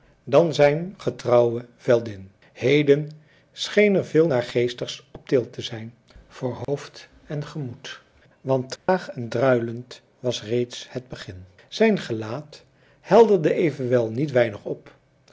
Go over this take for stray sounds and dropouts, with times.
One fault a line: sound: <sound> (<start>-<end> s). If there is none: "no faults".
sound: dropout (6.6-6.7 s)
sound: dropout (8.8-8.9 s)